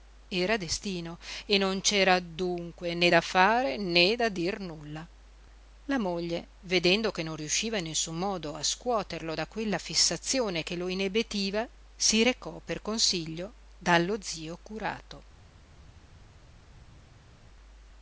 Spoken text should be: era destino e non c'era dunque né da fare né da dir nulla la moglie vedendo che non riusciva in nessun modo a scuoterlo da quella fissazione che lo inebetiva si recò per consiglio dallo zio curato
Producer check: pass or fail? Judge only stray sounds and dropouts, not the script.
pass